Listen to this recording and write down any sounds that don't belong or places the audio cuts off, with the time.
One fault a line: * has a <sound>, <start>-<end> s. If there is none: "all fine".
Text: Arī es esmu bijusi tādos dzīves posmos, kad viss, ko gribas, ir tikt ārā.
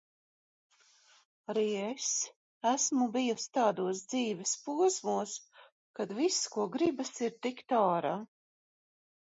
all fine